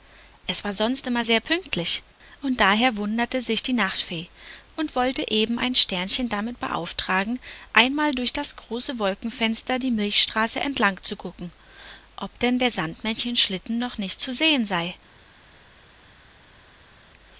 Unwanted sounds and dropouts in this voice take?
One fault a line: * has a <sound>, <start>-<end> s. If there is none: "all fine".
all fine